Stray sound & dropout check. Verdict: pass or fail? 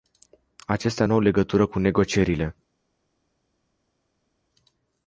pass